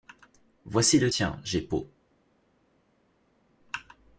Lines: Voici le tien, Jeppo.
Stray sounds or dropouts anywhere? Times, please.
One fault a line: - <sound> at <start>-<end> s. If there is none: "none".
none